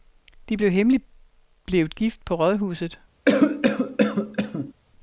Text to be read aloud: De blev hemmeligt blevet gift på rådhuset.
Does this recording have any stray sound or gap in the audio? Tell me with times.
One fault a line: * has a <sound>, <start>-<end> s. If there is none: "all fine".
* has a cough, 3.3-4.7 s